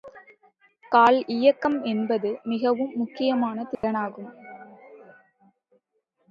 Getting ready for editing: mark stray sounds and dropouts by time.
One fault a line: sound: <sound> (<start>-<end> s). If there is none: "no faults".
sound: dropout (3.7-3.8 s)